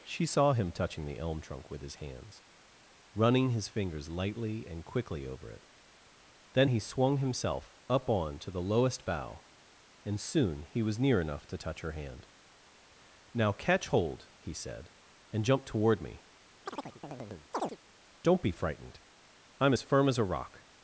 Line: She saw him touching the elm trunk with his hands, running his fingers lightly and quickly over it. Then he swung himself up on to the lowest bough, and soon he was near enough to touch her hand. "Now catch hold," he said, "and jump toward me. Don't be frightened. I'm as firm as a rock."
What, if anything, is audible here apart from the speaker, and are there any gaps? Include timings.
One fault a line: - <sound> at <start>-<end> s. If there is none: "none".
- chirp at 16.7-17.8 s